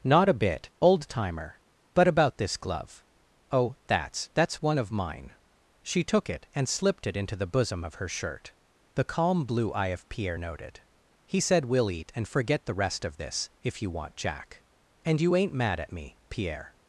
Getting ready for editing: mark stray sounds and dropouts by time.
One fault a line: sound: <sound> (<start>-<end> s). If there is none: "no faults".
no faults